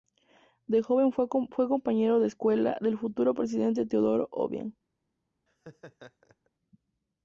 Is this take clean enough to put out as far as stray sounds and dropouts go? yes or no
no